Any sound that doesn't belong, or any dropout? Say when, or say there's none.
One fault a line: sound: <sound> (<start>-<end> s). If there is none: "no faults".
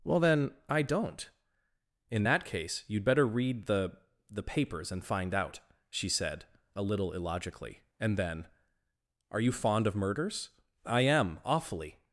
no faults